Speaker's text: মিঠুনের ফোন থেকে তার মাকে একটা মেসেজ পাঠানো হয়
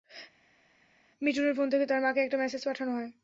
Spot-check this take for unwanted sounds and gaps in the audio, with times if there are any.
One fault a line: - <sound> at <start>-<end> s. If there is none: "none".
none